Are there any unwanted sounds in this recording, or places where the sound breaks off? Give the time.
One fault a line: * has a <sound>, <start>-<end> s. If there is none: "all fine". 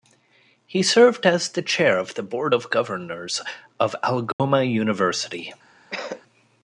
* has a dropout, 4.3-4.4 s
* has a cough, 5.9-6.2 s